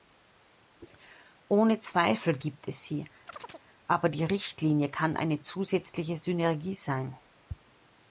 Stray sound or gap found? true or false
true